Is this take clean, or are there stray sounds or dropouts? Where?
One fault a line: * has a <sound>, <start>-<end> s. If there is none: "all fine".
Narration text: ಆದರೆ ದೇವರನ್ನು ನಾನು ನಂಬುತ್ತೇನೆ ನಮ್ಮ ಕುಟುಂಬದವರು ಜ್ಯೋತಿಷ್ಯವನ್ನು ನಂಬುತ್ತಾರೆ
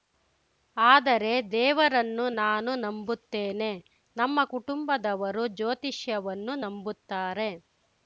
all fine